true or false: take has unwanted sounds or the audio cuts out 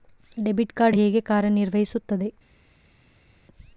false